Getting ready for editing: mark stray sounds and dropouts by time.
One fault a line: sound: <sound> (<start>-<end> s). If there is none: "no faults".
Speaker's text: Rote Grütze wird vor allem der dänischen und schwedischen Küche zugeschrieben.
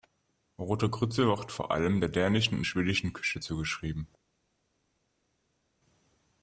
no faults